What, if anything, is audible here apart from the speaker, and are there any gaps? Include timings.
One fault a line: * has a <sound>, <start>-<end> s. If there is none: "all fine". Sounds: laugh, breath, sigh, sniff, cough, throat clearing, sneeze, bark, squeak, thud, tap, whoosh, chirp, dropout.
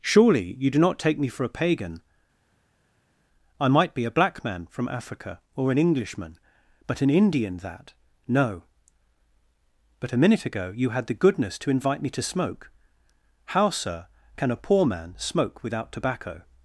all fine